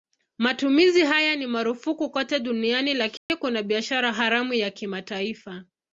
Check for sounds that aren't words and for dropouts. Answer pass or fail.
fail